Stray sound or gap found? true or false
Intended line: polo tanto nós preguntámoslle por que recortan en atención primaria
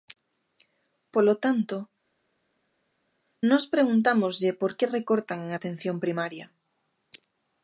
false